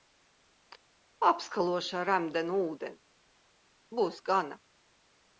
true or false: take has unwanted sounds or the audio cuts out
false